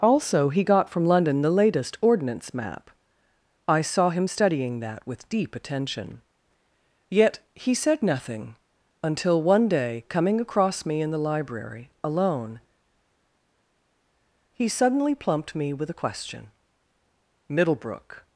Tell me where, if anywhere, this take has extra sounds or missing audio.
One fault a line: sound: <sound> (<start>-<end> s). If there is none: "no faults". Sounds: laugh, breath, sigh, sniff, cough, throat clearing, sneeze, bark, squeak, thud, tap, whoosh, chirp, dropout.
no faults